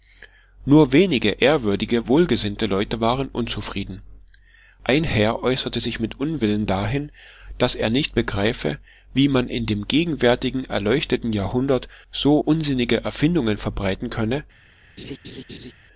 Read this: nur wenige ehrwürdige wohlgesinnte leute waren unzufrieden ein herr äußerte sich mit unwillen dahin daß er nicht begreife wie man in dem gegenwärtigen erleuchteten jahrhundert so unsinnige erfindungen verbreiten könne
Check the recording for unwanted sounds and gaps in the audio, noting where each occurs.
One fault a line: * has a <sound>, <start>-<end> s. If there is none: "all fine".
* has a laugh, 15.0-15.7 s